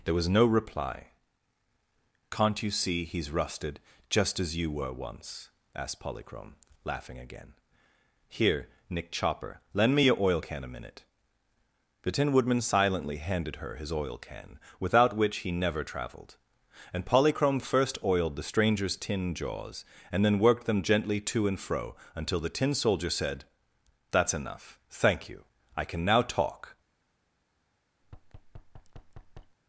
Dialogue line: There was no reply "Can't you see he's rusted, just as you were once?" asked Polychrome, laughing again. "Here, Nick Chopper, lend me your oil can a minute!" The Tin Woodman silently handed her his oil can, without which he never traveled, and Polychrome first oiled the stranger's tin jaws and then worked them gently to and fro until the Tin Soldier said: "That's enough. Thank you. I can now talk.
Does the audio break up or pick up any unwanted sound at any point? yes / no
yes